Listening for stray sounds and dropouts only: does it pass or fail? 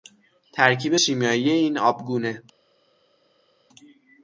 pass